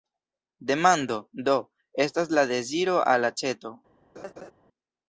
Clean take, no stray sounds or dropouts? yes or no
no